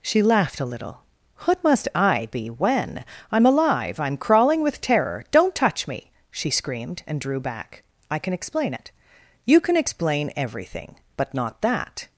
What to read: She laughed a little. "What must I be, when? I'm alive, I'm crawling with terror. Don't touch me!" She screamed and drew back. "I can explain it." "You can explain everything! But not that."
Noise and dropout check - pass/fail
pass